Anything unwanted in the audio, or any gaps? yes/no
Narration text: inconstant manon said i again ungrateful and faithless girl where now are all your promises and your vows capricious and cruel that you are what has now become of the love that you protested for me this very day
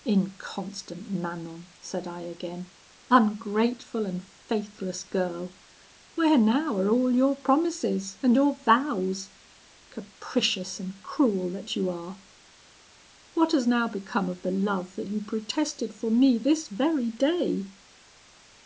no